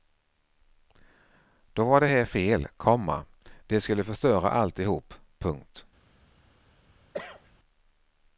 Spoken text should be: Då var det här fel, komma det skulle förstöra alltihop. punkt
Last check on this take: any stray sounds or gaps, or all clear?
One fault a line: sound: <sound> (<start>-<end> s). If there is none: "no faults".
sound: cough (7.1-7.5 s)